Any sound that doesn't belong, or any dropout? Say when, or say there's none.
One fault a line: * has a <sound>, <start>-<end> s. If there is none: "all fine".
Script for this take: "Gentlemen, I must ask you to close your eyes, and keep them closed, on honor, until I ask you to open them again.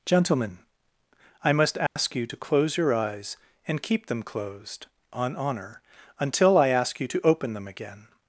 * has a dropout, 1.9-2.0 s